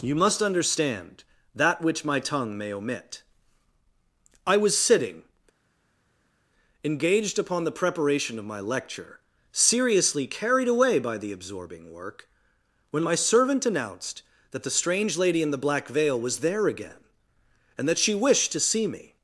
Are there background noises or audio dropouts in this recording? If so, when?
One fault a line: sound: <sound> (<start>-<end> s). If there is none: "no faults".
no faults